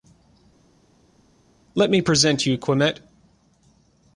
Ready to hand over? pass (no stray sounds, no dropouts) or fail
pass